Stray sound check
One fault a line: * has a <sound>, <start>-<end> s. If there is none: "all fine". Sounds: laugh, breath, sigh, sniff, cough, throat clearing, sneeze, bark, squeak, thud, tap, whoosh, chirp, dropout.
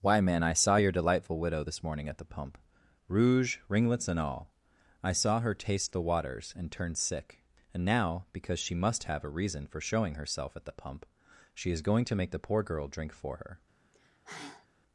* has a sigh, 13.9-14.7 s